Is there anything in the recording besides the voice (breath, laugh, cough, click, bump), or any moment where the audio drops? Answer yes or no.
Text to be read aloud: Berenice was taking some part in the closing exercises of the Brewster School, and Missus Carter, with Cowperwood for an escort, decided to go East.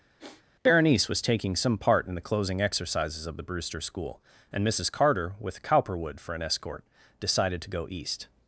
yes